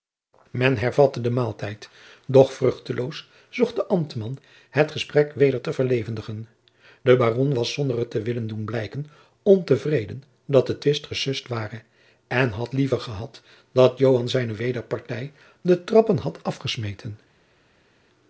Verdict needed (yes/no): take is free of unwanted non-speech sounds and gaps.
yes